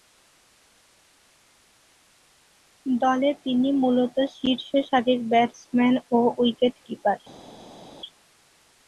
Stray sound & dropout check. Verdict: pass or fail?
pass